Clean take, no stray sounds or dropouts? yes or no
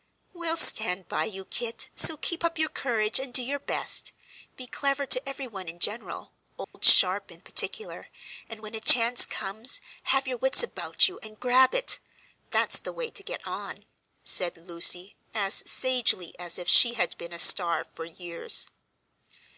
no